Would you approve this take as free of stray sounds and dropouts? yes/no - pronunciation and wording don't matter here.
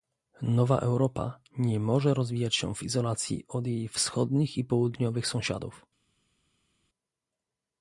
yes